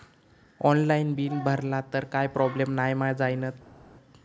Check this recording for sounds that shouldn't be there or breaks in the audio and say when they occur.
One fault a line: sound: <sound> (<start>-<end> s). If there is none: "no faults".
no faults